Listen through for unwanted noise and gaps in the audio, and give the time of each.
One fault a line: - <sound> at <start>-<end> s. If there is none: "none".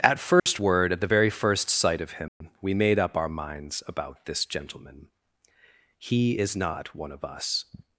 - dropout at 0.4-0.5 s
- dropout at 2.3-2.4 s